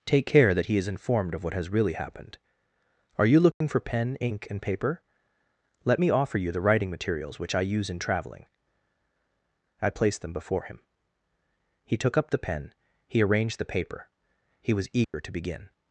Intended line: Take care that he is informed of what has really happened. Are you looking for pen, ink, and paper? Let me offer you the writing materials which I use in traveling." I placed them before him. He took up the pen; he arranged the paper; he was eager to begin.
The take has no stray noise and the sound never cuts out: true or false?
false